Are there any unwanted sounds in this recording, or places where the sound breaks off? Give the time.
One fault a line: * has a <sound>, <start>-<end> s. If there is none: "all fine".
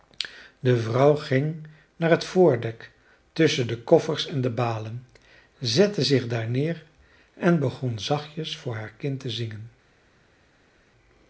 all fine